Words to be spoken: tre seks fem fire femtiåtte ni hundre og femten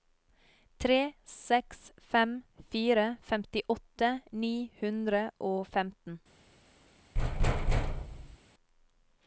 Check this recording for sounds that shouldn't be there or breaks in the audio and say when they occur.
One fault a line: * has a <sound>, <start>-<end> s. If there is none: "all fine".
* has a thud, 7.1-8.4 s